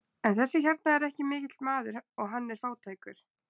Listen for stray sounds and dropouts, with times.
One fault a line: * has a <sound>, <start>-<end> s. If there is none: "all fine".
all fine